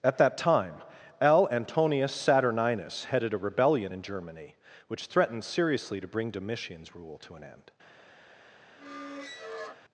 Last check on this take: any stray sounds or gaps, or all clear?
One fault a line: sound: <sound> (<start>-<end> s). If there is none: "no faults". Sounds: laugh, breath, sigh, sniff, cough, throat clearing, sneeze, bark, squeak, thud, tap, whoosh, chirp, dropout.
sound: squeak (8.8-9.8 s)